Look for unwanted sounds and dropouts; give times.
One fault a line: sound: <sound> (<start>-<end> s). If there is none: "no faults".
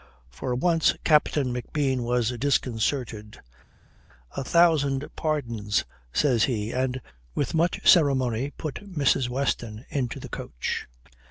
no faults